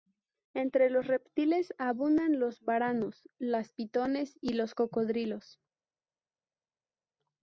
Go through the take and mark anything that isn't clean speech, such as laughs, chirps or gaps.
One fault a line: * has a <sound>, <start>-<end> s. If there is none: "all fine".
all fine